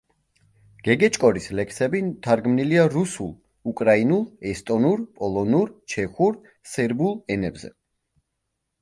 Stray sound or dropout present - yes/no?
no